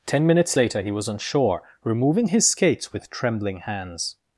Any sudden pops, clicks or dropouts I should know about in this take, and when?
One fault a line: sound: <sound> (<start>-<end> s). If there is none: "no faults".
no faults